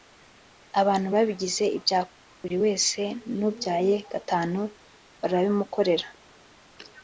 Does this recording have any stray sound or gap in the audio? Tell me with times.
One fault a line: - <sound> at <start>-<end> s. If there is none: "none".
none